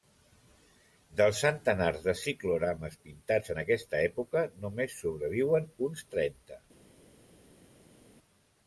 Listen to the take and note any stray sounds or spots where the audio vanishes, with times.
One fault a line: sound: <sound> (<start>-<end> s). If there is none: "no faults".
no faults